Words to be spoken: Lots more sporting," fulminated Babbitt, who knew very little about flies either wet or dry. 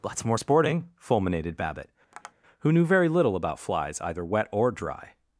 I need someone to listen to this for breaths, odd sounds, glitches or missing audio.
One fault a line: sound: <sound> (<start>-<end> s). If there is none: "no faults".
sound: tap (2.1-2.3 s)